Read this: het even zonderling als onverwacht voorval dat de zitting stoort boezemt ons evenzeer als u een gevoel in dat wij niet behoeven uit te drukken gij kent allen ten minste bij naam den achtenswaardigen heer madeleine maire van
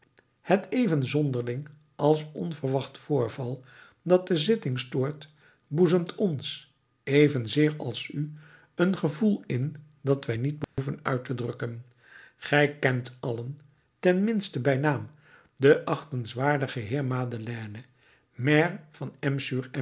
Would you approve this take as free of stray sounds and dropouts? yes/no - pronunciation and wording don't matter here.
no